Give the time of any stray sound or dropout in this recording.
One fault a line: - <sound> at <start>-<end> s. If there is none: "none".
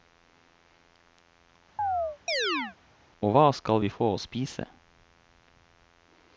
- chirp at 1.8-2.8 s